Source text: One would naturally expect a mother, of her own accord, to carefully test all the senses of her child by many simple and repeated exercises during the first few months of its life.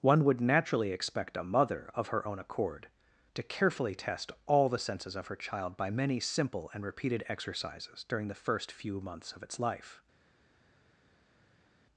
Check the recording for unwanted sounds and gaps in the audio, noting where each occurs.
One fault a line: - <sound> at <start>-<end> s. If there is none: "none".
none